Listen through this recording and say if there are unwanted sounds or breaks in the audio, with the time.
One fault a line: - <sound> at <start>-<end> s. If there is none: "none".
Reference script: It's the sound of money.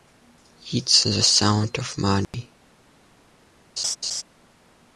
- dropout at 2.2-2.3 s
- laugh at 3.8-4.2 s